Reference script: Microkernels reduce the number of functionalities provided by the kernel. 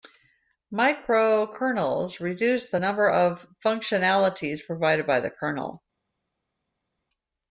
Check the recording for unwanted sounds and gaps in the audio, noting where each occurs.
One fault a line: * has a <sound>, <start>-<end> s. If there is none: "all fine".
all fine